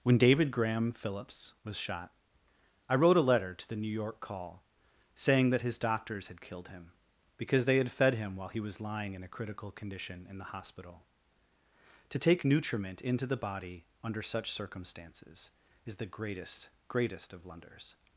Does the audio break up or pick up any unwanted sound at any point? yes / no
no